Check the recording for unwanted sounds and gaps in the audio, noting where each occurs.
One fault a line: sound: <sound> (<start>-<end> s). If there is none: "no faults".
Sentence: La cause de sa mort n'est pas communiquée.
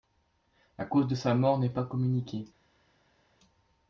no faults